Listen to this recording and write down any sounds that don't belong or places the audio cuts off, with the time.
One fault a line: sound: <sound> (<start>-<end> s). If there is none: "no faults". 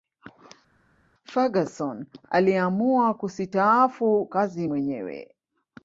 no faults